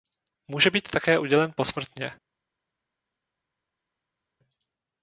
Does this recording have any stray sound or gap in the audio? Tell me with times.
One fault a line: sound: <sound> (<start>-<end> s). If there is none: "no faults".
no faults